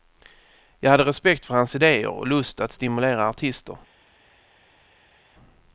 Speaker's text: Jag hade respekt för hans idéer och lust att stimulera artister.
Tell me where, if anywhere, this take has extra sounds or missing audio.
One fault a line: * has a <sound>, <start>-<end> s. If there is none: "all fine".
all fine